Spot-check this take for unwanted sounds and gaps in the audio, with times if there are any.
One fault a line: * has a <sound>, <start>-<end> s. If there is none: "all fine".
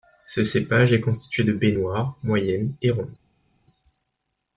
all fine